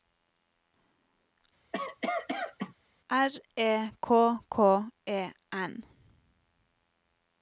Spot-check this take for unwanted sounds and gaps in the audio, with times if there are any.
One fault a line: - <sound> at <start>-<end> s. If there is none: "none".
- cough at 1.7-2.7 s